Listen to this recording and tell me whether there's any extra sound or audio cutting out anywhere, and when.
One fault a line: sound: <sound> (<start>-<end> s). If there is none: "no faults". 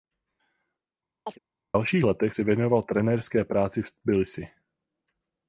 sound: chirp (1.3-1.4 s)